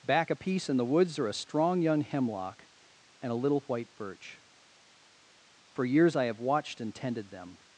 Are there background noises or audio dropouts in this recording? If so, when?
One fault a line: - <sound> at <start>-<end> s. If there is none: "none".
none